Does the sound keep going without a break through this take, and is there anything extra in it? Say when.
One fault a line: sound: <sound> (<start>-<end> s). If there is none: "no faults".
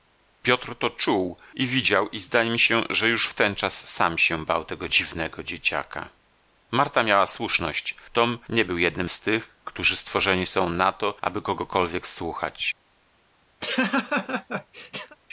sound: laugh (13.6-15.2 s)